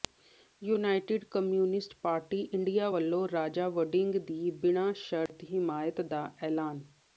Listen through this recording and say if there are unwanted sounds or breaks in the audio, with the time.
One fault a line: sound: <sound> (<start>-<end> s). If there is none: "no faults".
sound: dropout (5.3-5.3 s)